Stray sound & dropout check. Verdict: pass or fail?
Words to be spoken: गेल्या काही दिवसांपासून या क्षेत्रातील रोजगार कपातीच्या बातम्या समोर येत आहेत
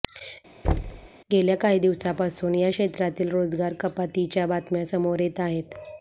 fail